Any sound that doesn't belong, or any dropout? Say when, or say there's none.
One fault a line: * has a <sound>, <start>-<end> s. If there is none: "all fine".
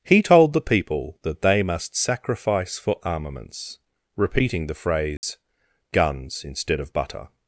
* has a dropout, 5.2-5.2 s